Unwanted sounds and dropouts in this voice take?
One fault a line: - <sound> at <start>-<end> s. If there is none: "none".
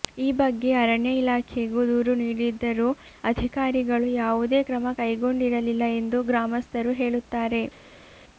none